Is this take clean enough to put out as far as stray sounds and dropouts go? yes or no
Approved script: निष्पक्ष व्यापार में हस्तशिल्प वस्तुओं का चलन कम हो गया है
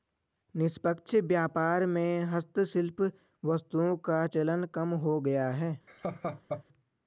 no